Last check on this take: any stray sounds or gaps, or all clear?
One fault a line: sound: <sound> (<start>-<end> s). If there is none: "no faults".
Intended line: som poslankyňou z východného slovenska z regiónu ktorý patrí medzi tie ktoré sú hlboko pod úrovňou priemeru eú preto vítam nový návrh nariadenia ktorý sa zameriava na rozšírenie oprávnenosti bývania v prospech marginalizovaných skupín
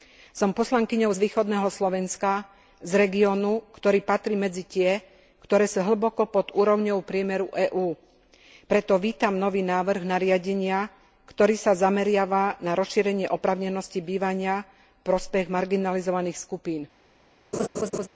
sound: laugh (17.5-18.1 s)